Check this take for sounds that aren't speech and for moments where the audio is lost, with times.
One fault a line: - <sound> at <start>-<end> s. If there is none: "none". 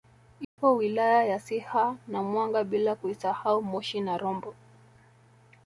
- dropout at 0.4-0.6 s